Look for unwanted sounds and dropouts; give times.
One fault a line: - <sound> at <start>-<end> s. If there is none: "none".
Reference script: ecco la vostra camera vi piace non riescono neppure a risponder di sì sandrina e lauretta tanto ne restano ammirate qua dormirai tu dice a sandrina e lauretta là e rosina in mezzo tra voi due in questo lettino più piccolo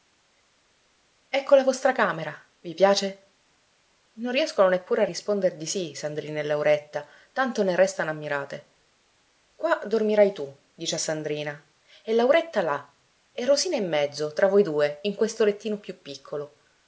none